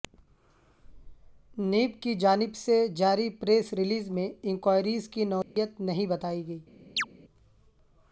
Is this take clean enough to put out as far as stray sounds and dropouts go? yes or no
no